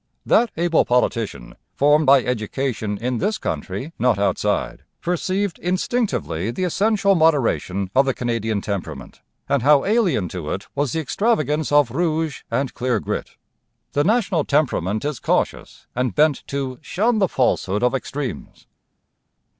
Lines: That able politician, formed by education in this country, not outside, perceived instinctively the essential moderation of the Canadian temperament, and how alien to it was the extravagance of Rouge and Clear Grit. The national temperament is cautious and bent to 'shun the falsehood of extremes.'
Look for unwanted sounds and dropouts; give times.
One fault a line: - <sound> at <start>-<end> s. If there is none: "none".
none